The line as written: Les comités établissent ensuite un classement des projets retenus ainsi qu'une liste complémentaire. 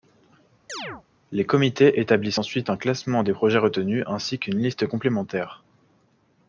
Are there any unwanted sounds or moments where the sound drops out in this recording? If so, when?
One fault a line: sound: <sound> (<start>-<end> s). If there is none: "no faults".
sound: chirp (0.7-1.0 s)